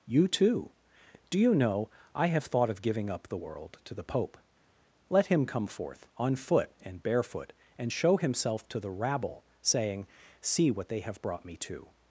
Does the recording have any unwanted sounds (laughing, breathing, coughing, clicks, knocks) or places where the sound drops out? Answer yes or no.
no